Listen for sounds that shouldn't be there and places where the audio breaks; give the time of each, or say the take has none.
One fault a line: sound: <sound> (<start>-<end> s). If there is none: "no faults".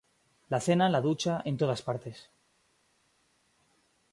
no faults